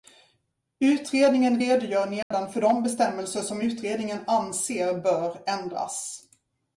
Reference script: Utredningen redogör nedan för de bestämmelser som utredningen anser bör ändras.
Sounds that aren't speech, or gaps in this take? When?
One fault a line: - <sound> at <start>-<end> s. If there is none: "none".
- dropout at 2.2-2.3 s